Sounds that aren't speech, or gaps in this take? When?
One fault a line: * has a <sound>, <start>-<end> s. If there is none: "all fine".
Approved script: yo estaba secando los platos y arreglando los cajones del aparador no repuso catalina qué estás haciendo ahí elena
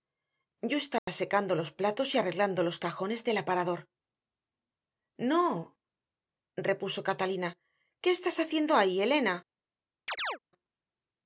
* has a dropout, 1.0-1.1 s
* has a chirp, 10.1-10.4 s